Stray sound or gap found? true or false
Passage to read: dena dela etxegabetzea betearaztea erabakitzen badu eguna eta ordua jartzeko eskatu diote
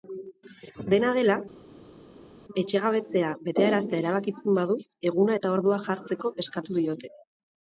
false